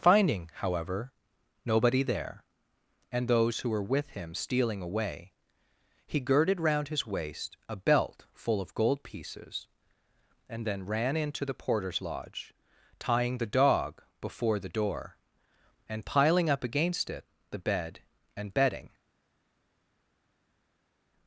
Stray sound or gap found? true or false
false